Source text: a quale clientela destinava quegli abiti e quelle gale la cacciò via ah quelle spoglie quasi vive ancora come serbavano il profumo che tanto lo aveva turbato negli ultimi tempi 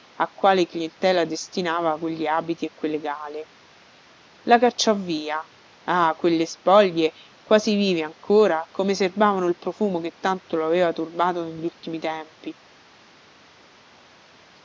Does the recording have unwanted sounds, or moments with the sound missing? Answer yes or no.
no